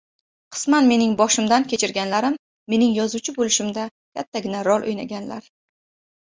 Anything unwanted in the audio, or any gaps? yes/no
no